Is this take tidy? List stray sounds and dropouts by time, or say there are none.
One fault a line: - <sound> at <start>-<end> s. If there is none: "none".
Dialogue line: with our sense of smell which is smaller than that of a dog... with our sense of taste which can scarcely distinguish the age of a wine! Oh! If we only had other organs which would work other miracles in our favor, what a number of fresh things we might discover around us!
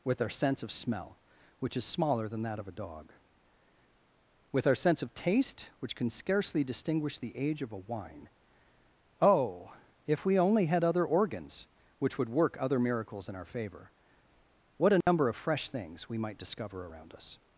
- dropout at 15.0-15.1 s